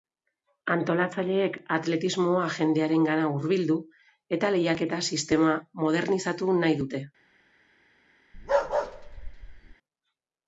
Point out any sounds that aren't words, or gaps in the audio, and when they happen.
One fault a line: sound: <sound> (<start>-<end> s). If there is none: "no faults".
sound: bark (8.3-9.8 s)